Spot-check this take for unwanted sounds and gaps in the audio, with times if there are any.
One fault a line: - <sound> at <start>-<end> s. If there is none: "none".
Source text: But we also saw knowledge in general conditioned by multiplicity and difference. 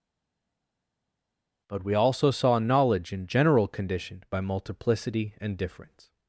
none